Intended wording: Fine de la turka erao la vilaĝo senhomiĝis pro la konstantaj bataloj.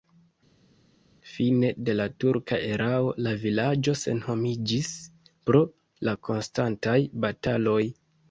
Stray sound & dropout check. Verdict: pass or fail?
pass